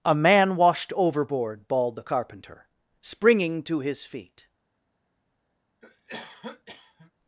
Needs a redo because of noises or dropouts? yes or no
yes